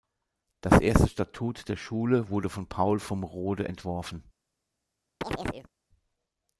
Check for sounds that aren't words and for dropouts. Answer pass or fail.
fail